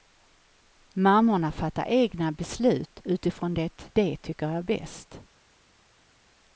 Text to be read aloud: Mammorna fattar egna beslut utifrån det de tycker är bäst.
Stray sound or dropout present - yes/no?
no